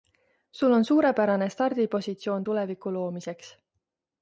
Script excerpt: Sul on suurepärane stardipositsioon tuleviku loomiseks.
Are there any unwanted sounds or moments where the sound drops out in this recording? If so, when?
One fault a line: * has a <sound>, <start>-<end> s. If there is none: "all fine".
all fine